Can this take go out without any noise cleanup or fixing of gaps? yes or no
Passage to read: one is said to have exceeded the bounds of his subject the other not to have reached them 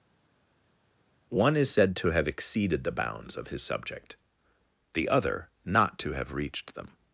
yes